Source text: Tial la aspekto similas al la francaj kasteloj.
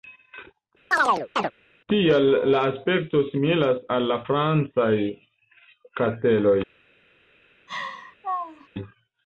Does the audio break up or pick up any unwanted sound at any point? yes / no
yes